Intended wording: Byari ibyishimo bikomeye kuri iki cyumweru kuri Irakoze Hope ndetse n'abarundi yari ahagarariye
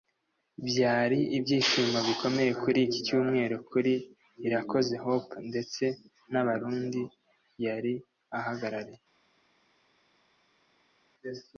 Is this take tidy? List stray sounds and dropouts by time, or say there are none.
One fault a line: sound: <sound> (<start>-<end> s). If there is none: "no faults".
no faults